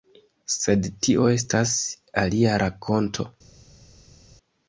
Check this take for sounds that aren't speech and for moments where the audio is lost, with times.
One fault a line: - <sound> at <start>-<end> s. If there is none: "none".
none